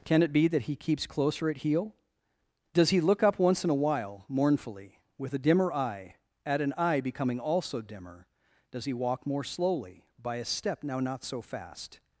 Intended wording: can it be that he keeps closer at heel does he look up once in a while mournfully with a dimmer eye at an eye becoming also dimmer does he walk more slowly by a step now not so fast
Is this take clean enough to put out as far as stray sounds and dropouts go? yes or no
yes